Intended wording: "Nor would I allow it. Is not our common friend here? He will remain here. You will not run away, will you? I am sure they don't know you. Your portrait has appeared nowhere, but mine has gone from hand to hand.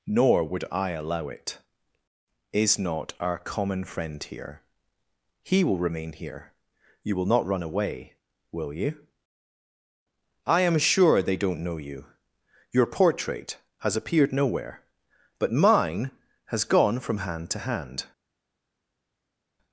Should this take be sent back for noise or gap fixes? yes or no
no